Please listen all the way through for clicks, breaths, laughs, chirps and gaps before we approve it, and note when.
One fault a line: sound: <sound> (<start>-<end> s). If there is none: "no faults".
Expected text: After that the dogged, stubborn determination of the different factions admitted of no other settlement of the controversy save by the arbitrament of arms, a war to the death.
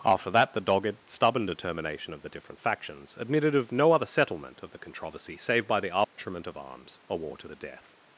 sound: dropout (6.0-6.2 s)